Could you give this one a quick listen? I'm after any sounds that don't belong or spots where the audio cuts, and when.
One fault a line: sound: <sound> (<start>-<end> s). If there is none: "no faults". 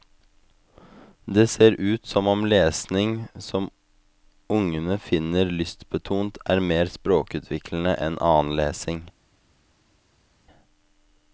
no faults